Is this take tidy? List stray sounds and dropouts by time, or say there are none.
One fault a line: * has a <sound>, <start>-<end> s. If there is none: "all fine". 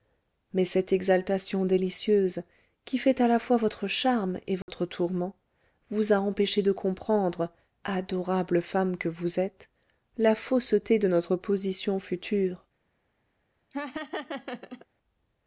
* has a dropout, 4.6-4.7 s
* has a laugh, 13.7-14.9 s